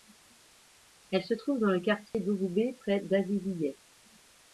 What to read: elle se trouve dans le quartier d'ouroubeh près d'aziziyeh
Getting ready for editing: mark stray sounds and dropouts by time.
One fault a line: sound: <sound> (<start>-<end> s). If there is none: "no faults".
sound: dropout (2.1-2.1 s)